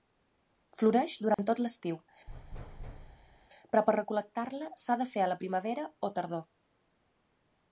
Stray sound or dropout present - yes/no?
yes